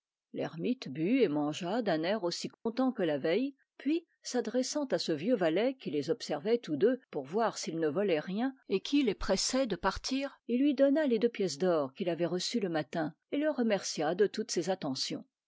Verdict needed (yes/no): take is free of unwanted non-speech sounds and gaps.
no